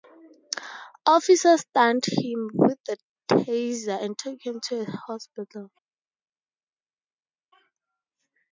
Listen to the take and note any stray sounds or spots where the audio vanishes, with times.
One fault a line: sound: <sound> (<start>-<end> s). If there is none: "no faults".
no faults